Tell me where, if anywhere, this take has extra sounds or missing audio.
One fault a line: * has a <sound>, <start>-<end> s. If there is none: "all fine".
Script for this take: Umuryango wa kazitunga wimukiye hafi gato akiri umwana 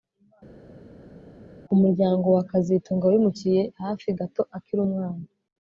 all fine